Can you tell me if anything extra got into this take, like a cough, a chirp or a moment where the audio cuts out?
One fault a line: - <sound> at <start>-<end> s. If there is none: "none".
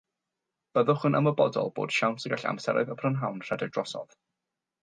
none